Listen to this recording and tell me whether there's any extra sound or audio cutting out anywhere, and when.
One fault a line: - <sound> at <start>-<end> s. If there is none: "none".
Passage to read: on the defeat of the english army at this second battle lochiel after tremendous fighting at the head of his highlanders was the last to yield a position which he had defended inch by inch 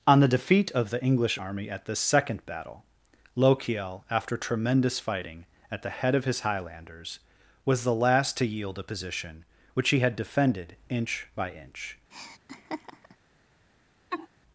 - laugh at 12.1-13.2 s
- laugh at 14.1-14.3 s